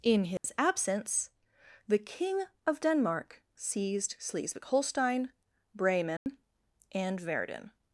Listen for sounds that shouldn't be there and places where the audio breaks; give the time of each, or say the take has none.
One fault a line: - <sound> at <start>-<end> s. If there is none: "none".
- dropout at 0.4-0.4 s
- dropout at 6.2-6.3 s